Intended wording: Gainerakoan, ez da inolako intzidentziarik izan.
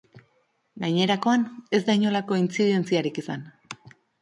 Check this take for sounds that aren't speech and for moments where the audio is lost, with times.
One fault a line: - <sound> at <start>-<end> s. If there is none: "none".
none